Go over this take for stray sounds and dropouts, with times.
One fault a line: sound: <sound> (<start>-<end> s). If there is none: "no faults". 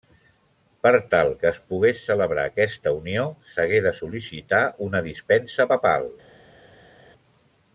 no faults